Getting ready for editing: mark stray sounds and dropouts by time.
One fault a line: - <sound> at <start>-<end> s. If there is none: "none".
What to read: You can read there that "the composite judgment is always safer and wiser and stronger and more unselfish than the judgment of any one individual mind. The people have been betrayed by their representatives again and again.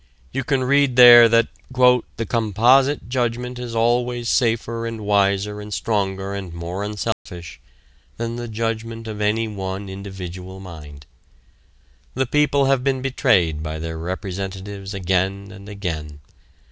- dropout at 7.1-7.3 s